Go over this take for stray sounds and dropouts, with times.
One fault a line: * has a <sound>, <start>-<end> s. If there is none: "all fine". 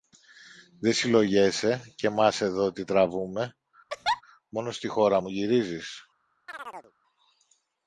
* has a laugh, 3.9-4.2 s
* has a chirp, 6.5-6.9 s